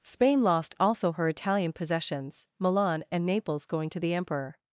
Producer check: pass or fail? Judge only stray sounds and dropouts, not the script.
pass